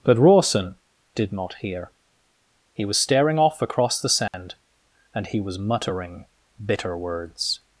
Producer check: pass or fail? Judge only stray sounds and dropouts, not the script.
fail